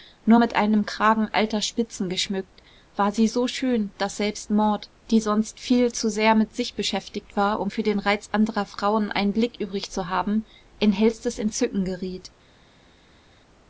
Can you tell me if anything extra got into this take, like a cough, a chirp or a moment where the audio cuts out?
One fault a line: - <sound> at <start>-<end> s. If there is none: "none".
none